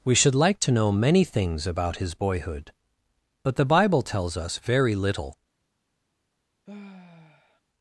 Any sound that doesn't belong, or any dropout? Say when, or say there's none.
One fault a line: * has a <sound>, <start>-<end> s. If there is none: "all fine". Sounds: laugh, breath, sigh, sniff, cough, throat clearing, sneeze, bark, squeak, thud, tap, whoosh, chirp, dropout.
* has a sigh, 6.7-7.6 s